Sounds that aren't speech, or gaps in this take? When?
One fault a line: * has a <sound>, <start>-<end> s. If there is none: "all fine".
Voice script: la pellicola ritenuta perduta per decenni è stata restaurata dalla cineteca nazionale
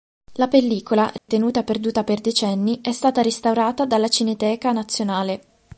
* has a dropout, 1.2-1.3 s